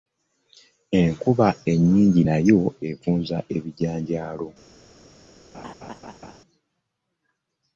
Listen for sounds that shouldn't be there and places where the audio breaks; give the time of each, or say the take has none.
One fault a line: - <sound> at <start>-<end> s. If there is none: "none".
- laugh at 5.5-6.4 s